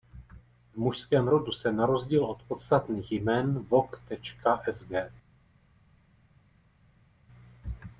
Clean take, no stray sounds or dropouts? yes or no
yes